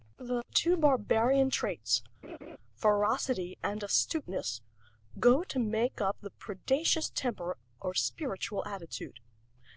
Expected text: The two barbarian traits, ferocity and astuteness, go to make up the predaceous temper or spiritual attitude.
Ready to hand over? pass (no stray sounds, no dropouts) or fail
fail